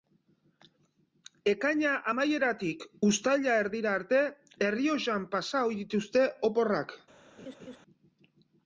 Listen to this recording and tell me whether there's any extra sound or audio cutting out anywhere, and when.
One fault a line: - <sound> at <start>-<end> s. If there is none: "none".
- laugh at 7.4-7.8 s